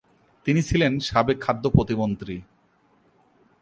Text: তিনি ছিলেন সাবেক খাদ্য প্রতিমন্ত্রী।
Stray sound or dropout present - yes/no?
no